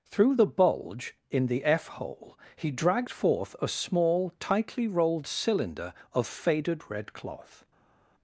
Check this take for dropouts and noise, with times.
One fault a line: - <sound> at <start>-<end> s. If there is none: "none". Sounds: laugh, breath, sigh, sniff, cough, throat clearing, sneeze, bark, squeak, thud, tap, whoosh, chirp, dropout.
none